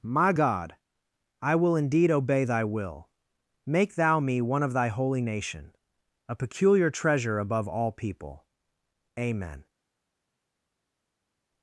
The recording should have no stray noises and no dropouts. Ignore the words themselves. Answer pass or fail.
pass